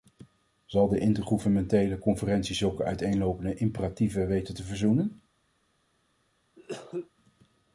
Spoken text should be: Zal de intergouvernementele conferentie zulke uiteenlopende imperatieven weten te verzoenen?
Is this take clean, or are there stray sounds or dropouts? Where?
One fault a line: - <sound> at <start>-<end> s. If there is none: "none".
- cough at 6.6-7.1 s